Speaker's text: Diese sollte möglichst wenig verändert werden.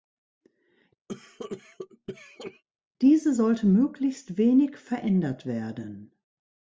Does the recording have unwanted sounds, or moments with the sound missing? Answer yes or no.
yes